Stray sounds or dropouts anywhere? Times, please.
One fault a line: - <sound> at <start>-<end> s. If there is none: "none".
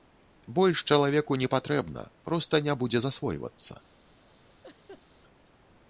- laugh at 4.6-5.1 s